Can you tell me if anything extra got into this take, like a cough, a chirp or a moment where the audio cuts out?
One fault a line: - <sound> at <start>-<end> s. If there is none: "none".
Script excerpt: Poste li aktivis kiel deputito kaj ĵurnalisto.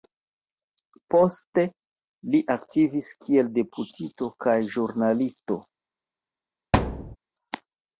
- thud at 6.7-7.2 s